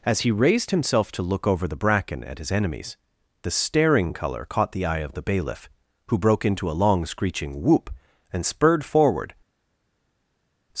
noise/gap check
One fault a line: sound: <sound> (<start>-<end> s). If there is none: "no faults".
no faults